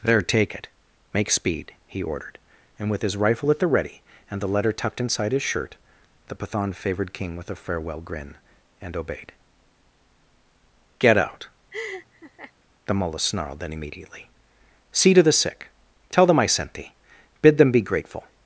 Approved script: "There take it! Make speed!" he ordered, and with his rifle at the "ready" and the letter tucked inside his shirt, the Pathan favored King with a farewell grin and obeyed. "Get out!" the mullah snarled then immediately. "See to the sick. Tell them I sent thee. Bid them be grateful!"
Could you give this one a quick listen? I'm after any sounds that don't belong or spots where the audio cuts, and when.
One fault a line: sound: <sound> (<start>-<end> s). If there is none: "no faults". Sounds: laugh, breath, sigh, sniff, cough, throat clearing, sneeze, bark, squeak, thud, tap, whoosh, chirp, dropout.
sound: laugh (11.7-12.5 s)